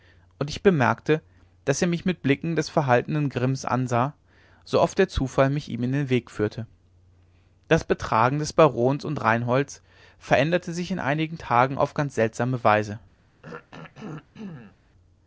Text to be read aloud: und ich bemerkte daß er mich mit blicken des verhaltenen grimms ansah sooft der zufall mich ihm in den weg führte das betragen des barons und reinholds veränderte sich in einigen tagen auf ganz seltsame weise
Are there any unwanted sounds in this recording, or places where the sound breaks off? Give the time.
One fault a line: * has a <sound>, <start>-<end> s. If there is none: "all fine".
* has a throat clearing, 13.4-14.8 s